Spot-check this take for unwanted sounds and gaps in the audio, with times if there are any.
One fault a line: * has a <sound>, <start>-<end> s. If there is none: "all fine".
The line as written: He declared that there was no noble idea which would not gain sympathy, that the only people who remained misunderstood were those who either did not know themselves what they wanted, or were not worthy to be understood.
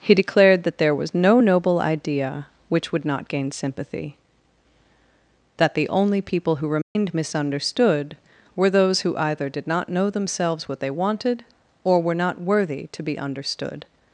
* has a dropout, 6.8-7.0 s